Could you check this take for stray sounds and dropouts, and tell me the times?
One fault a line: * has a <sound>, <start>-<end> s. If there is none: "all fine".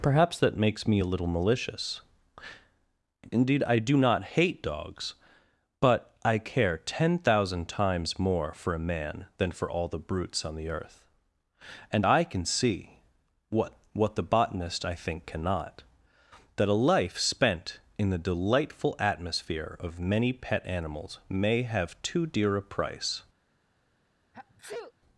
* has a sneeze, 24.3-24.9 s